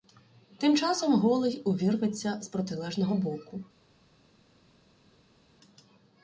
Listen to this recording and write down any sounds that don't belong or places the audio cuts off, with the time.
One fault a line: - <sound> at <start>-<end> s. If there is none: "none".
none